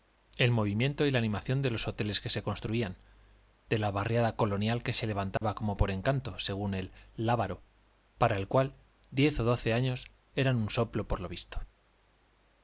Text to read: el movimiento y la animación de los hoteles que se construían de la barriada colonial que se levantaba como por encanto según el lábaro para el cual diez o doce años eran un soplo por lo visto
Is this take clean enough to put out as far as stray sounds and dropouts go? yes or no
no